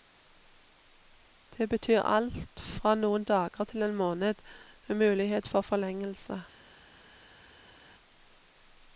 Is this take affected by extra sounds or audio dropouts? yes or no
no